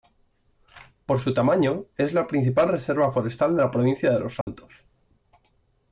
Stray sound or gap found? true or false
true